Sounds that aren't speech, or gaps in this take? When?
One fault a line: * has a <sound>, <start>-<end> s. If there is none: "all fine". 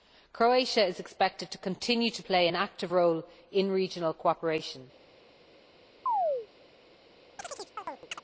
* has a chirp, 6.1-6.5 s
* has a chirp, 7.4-8.2 s